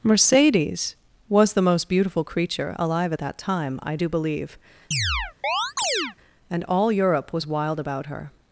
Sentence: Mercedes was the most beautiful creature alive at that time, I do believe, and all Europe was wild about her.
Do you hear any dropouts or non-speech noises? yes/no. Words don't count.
yes